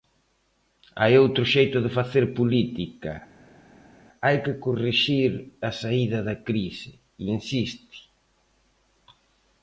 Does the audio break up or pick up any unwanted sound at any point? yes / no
no